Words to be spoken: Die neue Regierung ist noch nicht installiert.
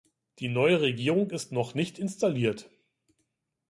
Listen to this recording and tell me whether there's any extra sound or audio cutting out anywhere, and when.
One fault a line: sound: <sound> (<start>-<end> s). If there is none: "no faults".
no faults